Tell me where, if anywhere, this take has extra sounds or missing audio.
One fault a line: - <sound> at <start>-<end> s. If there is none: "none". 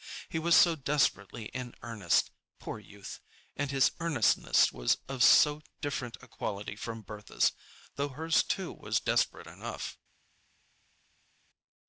none